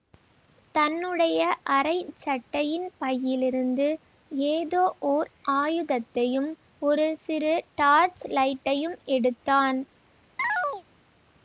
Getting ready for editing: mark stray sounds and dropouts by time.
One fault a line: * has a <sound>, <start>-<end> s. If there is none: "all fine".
* has a chirp, 10.4-10.8 s